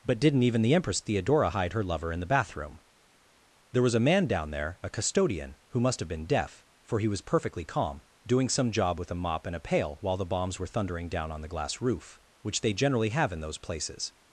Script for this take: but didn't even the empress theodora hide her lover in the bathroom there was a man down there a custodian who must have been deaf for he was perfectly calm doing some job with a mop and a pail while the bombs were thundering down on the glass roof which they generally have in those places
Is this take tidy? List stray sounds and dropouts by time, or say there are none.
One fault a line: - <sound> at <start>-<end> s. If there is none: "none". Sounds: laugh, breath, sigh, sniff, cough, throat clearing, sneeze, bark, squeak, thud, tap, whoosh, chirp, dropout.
none